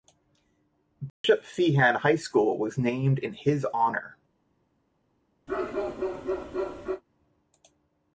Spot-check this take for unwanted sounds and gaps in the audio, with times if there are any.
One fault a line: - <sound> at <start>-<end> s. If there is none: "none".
- dropout at 1.1-1.2 s
- bark at 5.5-7.0 s